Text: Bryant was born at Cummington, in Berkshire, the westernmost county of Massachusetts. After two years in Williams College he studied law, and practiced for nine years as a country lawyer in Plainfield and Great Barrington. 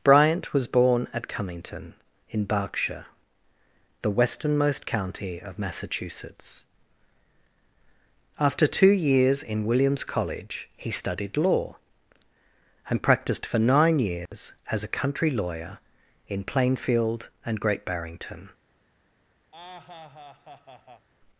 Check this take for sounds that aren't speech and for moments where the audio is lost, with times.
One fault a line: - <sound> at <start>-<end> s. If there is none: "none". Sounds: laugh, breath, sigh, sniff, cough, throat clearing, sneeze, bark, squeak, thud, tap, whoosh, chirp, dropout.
- dropout at 14.3-14.3 s
- laugh at 19.5-21.1 s